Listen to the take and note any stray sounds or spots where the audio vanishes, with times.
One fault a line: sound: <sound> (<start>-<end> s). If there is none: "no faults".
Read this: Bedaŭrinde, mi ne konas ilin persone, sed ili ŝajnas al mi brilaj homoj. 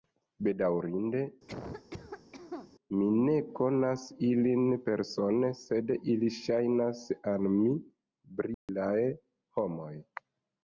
sound: cough (1.5-2.7 s)
sound: dropout (8.5-8.7 s)